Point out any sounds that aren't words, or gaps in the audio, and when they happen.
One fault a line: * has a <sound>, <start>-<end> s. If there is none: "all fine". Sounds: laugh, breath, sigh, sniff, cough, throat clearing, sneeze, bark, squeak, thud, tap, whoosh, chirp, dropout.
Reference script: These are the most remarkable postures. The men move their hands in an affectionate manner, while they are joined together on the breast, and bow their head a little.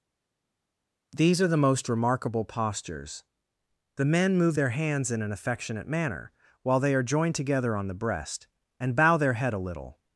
all fine